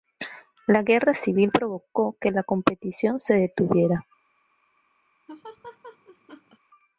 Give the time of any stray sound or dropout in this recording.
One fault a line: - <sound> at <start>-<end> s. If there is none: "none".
- laugh at 5.3-6.6 s